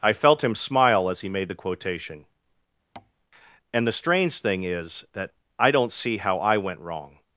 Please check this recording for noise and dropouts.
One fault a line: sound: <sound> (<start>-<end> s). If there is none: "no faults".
sound: tap (3.0-3.1 s)